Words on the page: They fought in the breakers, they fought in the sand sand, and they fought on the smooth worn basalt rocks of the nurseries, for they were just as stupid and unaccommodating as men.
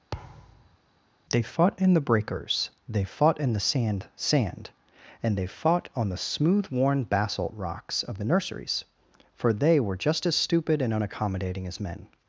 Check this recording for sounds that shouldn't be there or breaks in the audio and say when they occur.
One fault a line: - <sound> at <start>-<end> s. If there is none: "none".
- thud at 0.1-0.8 s